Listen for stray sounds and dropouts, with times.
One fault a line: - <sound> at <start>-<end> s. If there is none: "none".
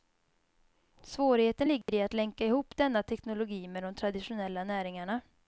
- dropout at 1.8-1.9 s